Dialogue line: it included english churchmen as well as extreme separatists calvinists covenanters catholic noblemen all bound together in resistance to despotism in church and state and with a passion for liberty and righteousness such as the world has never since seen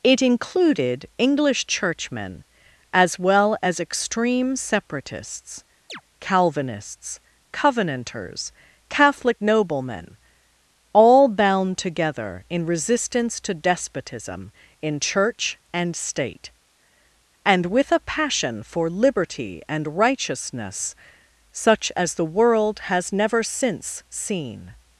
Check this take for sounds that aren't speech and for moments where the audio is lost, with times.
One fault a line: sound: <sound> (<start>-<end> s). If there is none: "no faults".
sound: chirp (5.9-6.0 s)